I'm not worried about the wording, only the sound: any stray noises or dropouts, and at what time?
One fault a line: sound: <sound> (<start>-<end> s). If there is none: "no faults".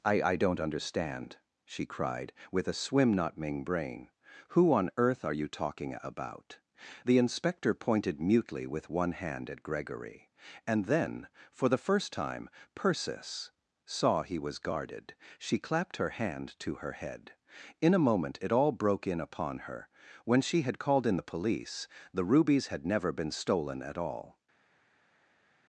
no faults